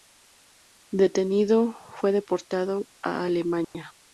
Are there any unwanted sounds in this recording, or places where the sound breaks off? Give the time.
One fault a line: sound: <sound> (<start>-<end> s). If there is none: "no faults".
sound: dropout (3.6-3.7 s)